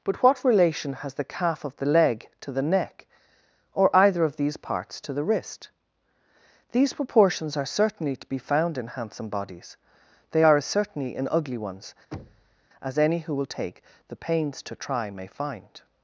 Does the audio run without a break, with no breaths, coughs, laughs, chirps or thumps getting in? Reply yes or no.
no